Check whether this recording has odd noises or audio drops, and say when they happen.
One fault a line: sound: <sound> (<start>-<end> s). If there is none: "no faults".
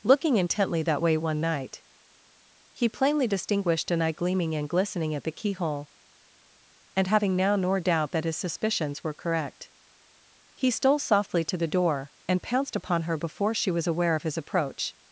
no faults